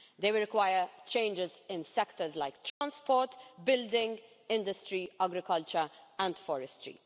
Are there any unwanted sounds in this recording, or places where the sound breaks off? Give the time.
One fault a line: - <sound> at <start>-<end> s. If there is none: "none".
- dropout at 2.7-2.8 s